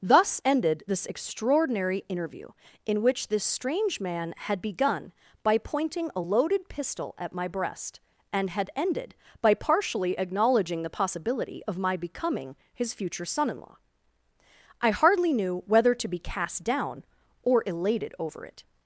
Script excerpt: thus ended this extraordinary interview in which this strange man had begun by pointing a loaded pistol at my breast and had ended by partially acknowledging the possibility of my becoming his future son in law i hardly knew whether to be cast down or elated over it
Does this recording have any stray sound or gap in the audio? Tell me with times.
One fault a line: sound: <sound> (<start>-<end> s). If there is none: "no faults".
no faults